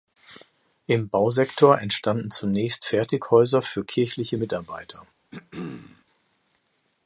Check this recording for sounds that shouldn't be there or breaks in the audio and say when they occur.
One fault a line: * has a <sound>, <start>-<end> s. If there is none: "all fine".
* has a throat clearing, 5.3-6.0 s